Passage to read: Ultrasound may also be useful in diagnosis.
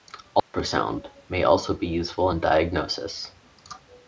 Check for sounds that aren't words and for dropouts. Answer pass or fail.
fail